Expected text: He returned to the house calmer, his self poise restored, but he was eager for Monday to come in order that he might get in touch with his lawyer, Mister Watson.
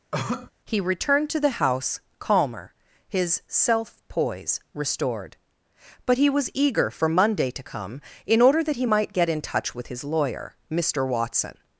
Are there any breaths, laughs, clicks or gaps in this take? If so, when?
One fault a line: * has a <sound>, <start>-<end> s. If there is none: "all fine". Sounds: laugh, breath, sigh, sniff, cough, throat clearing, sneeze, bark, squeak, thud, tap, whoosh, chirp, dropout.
* has a cough, 0.1-0.5 s